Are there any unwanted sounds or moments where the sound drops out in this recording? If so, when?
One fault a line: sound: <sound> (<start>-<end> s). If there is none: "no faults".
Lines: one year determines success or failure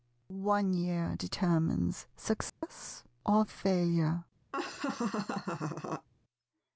sound: dropout (2.5-2.6 s)
sound: laugh (4.5-6.1 s)